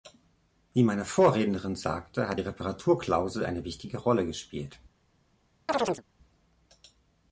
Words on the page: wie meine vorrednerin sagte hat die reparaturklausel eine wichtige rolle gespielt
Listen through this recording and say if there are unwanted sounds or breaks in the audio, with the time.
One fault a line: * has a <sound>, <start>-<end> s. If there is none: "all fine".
* has a chirp, 5.7-6.0 s